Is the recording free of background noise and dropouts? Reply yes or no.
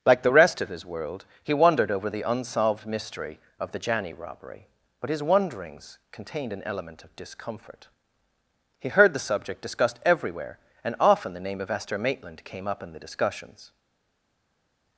yes